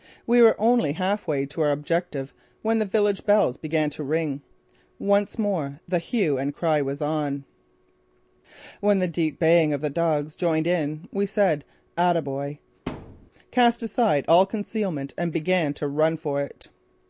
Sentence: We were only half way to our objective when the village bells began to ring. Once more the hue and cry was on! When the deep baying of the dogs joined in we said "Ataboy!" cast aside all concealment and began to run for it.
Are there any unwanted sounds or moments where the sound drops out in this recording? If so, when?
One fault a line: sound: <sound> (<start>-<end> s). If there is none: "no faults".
sound: thud (12.9-13.3 s)